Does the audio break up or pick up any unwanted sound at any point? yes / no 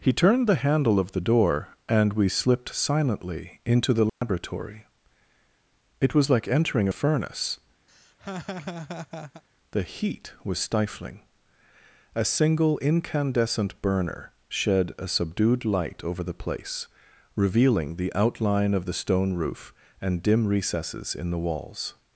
yes